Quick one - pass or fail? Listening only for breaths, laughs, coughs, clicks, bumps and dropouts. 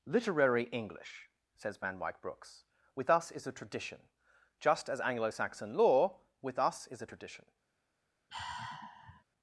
fail